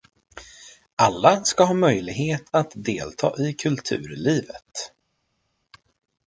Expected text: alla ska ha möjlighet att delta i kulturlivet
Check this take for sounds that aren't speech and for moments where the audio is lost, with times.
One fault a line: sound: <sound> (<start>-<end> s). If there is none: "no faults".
no faults